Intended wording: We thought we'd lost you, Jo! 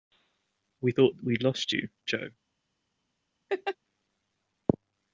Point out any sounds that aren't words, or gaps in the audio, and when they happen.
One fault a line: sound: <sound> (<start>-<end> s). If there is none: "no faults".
sound: laugh (3.5-3.8 s)